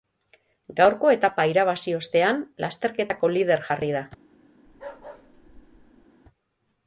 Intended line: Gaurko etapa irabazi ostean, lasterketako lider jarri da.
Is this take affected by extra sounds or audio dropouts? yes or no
yes